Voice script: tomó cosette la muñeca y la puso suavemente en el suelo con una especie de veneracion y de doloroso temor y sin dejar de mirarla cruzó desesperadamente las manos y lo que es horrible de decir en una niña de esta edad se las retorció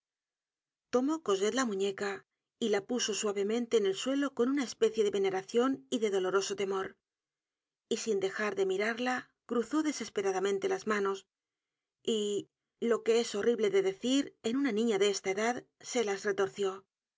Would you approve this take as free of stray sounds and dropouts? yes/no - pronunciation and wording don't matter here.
yes